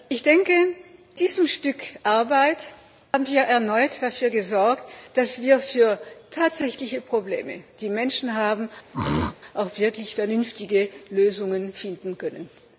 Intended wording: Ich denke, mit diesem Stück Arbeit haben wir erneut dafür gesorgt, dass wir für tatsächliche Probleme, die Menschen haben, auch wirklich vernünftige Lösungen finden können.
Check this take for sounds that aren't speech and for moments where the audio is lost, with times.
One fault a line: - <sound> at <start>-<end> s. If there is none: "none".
- throat clearing at 8.9-9.4 s